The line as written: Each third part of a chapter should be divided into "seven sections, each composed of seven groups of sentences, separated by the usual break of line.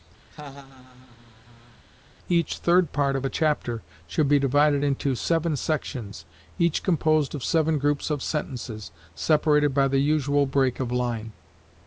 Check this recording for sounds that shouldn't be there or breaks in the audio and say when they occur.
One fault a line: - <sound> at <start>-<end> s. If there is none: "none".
- laugh at 0.3-1.8 s